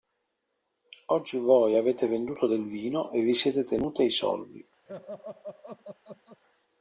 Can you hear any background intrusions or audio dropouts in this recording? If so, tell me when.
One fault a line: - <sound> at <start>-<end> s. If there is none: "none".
- laugh at 4.9-6.4 s